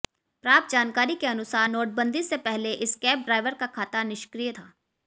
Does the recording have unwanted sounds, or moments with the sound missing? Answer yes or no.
no